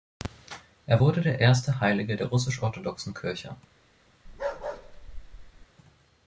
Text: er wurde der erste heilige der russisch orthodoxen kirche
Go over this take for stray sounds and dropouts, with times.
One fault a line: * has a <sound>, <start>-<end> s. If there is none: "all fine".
* has a bark, 4.3-5.7 s